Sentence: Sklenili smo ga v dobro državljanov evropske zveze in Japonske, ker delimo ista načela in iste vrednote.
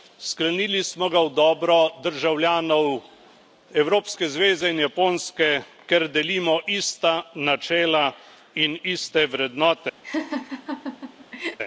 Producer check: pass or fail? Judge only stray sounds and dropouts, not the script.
fail